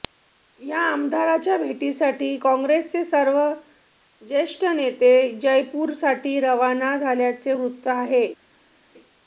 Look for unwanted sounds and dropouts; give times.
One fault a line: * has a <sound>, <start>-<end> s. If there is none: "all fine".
all fine